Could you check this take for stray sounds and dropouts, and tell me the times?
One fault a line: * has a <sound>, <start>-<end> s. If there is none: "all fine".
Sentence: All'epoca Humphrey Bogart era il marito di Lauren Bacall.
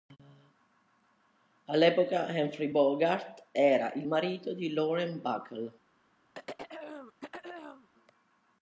* has a throat clearing, 6.3-7.9 s